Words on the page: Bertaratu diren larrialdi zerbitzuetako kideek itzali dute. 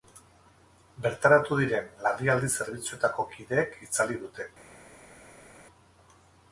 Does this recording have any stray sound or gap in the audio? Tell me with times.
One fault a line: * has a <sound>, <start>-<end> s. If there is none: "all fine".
all fine